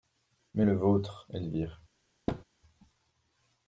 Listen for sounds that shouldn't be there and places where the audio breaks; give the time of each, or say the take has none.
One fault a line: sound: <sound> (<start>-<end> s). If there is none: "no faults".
sound: thud (2.3-2.4 s)